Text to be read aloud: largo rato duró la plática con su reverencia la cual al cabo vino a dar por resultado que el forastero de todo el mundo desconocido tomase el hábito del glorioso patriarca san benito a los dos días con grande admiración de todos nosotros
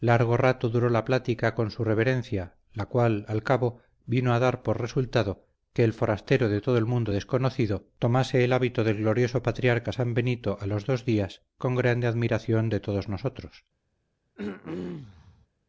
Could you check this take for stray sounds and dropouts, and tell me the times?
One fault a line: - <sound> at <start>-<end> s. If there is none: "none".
- throat clearing at 14.4-15.5 s